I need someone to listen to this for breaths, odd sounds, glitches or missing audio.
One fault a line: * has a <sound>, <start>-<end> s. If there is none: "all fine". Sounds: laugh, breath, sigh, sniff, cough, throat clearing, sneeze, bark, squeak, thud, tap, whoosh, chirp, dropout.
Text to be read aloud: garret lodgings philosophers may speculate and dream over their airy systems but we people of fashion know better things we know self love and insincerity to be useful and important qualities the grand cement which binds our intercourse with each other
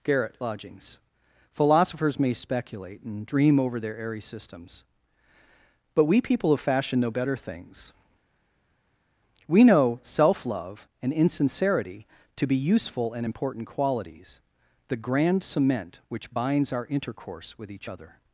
all fine